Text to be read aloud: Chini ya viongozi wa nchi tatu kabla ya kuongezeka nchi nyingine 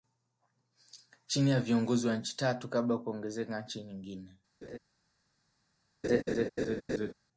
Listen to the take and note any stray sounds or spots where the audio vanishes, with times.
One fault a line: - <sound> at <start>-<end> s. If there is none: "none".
- laugh at 4.6-4.8 s
- laugh at 6.0-7.1 s